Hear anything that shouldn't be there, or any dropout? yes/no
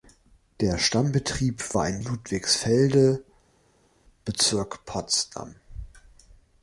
no